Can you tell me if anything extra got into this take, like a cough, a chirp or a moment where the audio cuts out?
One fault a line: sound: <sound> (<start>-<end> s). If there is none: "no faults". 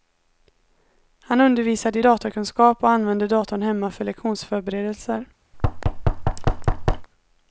sound: thud (5.5-7.1 s)